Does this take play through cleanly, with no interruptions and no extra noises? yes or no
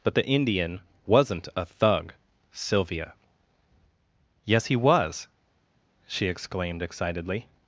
yes